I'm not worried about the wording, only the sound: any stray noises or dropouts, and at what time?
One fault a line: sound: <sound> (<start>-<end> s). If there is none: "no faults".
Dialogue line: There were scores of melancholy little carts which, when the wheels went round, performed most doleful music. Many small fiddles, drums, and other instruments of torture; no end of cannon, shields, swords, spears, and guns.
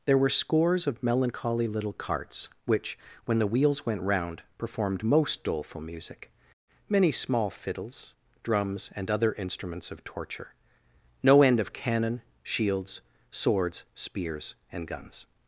no faults